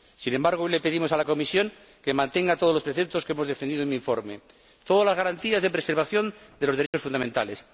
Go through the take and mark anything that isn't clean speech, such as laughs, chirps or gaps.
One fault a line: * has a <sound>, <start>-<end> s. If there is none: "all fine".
* has a dropout, 6.9-6.9 s